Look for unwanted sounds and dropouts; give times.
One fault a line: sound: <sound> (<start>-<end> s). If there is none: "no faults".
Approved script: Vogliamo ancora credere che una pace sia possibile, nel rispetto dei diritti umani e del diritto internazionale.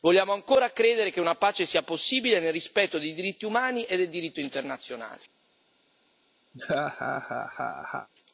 sound: laugh (6.5-8.1 s)